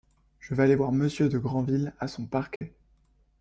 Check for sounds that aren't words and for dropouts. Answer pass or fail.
fail